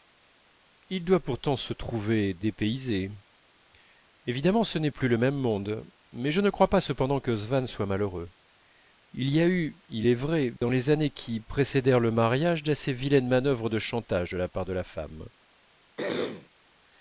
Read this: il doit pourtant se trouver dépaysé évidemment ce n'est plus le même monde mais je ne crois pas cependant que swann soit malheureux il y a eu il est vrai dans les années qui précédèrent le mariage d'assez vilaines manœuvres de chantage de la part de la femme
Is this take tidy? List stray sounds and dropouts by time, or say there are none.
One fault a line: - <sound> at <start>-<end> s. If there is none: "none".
- dropout at 10.6-10.6 s
- throat clearing at 16.0-16.5 s